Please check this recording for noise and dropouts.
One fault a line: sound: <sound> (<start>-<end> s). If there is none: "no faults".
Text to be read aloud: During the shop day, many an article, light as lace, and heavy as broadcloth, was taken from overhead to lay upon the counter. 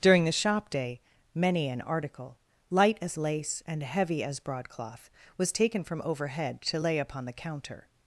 no faults